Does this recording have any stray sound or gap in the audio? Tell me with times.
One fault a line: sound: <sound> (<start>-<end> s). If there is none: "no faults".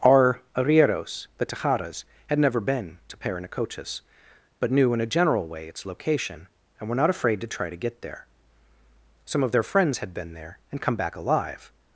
no faults